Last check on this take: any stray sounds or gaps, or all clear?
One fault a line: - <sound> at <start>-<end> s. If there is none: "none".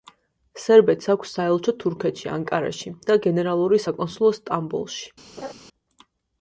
- laugh at 5.4-5.5 s